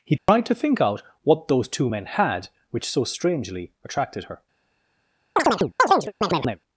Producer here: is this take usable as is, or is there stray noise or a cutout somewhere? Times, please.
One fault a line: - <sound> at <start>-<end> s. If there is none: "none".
- dropout at 0.2-0.3 s
- chirp at 5.4-6.6 s